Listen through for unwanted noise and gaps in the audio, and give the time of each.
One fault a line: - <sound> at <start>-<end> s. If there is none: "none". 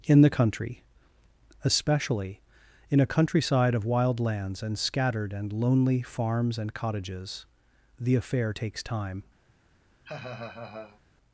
- laugh at 10.0-11.0 s